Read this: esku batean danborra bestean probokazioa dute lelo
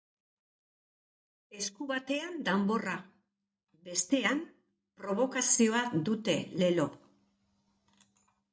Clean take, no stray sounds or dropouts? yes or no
yes